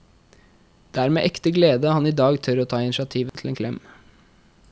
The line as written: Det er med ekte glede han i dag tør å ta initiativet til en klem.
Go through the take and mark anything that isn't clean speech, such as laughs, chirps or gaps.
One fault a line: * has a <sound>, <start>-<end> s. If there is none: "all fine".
* has a dropout, 3.3-3.3 s